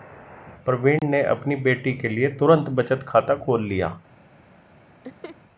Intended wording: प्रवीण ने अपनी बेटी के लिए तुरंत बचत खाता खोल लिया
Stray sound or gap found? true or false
true